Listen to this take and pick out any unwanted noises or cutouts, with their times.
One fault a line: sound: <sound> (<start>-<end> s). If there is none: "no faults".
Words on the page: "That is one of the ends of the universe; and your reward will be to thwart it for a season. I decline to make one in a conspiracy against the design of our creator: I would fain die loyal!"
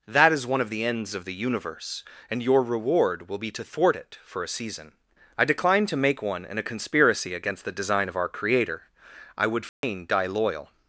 sound: dropout (9.7-9.8 s)